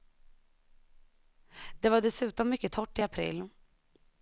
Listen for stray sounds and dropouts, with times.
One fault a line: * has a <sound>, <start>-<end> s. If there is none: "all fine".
all fine